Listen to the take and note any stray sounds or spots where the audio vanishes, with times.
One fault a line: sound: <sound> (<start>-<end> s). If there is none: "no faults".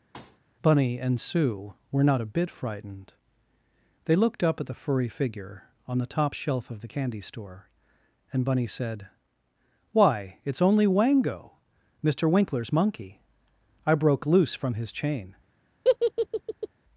sound: thud (0.1-0.4 s)
sound: laugh (15.8-16.7 s)